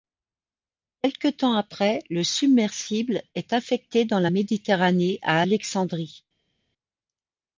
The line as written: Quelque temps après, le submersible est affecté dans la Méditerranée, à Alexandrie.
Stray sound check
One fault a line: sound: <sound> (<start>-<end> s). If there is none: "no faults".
no faults